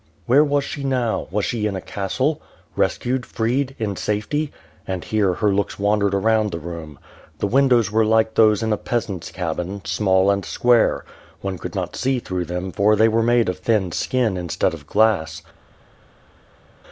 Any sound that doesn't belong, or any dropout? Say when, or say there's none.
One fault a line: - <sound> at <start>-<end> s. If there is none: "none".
none